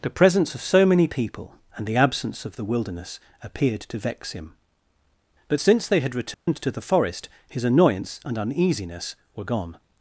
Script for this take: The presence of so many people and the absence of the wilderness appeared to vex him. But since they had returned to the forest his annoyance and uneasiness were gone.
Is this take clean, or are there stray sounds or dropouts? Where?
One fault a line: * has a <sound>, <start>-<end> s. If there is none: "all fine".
* has a dropout, 6.3-6.5 s